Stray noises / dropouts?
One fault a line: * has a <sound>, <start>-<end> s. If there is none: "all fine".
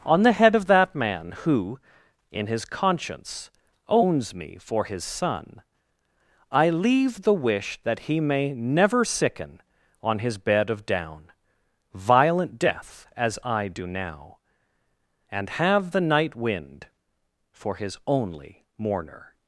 all fine